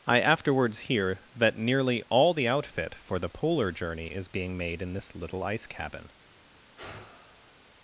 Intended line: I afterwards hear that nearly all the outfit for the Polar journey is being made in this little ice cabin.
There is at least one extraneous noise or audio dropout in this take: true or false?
true